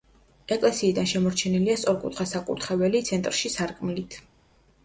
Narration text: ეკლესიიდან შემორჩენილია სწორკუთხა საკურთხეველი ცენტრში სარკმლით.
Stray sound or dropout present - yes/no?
no